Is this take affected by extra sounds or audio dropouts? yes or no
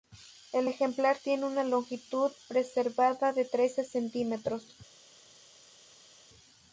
no